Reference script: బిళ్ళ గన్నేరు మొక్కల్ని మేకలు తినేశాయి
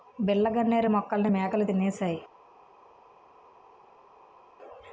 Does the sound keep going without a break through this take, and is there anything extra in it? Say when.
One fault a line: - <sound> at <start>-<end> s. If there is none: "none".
none